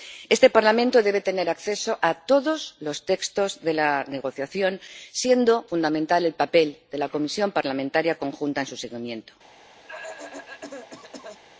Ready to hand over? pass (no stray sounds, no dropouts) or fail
fail